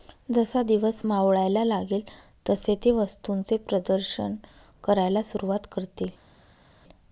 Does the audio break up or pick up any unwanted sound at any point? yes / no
no